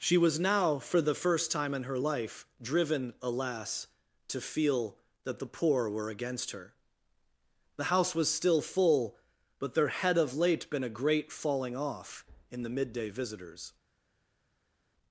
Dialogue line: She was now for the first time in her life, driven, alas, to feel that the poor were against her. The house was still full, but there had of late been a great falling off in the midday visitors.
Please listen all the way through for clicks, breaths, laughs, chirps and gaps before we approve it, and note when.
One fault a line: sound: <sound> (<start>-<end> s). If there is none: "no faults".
no faults